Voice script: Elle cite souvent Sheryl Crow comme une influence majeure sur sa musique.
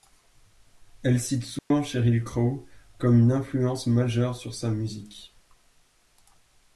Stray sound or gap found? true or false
true